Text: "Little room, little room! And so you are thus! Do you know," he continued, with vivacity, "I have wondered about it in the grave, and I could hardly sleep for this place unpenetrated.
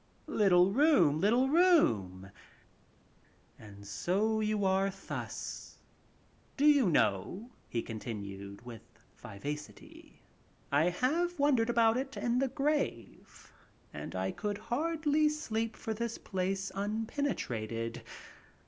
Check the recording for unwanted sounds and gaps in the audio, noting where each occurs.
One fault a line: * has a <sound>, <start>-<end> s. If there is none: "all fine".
all fine